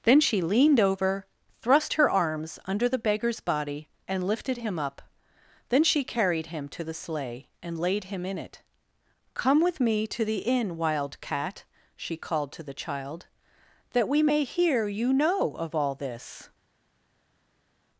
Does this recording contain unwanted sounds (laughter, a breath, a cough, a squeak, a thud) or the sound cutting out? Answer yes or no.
no